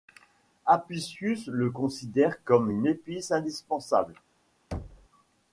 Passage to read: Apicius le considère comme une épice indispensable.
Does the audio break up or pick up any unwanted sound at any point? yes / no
yes